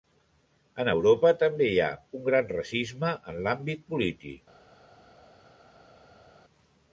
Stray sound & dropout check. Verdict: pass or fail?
pass